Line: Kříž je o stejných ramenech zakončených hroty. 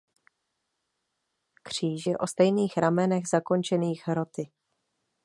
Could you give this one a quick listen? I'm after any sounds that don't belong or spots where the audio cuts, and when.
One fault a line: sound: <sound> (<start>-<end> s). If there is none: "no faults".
no faults